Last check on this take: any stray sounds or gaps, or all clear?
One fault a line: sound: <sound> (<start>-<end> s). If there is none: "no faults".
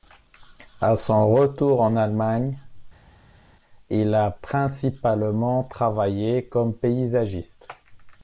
no faults